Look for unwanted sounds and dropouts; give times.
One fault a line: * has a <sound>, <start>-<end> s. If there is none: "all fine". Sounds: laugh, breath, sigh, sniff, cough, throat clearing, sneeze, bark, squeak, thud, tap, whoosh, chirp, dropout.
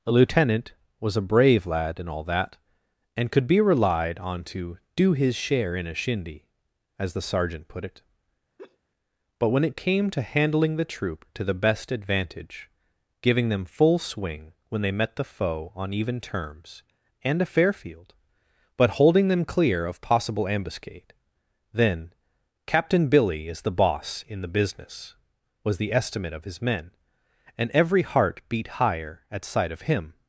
* has a laugh, 8.6-8.8 s